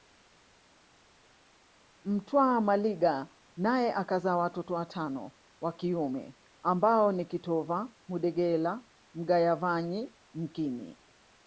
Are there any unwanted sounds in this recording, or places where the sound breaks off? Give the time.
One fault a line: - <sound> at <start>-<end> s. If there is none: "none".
none